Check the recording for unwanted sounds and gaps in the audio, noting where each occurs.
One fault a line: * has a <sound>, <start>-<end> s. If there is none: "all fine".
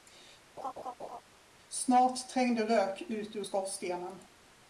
* has a laugh, 0.6-1.2 s